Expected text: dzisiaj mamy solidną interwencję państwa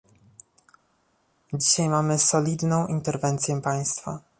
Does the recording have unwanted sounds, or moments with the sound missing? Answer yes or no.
no